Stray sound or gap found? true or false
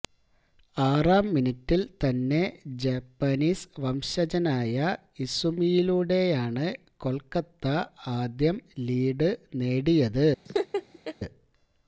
true